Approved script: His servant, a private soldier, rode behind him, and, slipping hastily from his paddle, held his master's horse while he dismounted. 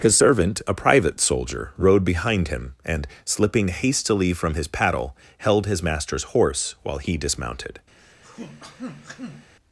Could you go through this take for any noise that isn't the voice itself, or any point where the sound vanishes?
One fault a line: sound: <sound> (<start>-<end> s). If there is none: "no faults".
sound: throat clearing (8.0-9.5 s)